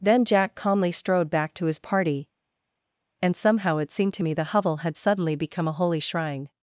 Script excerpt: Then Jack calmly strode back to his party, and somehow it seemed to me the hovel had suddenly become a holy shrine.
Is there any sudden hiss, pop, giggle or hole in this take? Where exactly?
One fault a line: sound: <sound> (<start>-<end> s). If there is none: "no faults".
no faults